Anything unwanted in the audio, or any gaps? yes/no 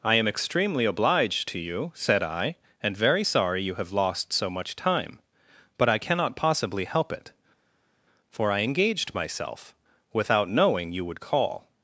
no